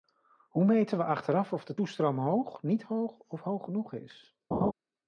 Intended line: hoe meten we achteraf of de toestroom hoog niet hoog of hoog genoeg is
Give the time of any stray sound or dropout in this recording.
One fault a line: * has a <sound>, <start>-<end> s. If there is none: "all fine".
* has a laugh, 4.5-4.7 s